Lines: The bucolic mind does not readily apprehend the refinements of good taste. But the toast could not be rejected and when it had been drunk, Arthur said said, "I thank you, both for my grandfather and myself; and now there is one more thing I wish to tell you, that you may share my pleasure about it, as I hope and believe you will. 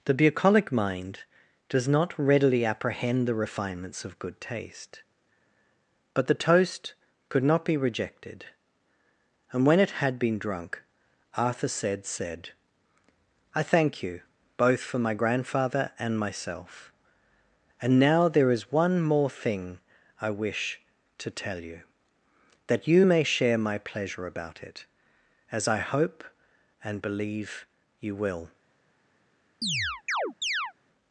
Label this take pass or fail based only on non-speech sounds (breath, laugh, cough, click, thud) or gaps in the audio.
fail